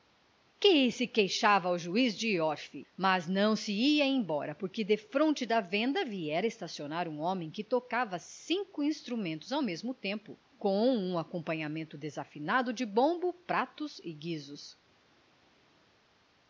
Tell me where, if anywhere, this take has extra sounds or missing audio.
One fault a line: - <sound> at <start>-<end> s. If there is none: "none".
none